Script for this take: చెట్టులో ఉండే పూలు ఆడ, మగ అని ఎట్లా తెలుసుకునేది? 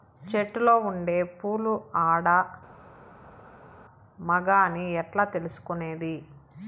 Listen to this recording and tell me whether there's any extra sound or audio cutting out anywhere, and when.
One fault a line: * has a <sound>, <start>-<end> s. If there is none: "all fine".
all fine